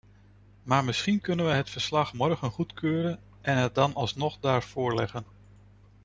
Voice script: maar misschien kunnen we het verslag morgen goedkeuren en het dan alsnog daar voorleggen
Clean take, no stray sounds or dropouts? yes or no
yes